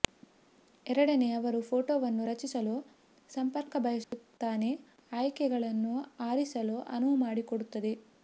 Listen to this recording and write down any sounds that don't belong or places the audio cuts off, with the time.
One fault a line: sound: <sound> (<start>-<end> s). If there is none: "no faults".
sound: dropout (4.0-4.1 s)